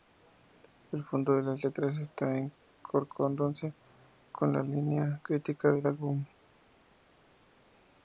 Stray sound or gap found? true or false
false